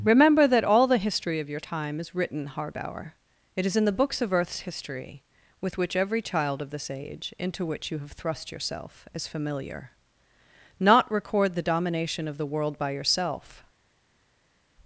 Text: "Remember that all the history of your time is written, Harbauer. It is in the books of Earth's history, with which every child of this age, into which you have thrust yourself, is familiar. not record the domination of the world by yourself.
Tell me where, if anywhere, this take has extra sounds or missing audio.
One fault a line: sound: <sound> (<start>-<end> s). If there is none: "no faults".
no faults